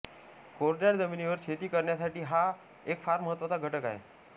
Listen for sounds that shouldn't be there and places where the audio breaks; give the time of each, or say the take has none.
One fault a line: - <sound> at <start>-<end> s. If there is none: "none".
none